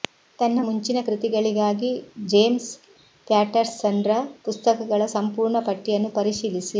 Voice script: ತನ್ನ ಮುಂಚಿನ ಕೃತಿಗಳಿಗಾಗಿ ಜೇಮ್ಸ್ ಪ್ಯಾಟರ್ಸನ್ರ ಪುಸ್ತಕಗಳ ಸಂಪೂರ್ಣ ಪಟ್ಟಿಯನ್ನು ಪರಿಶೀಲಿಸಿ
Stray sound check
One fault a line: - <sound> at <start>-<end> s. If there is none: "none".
none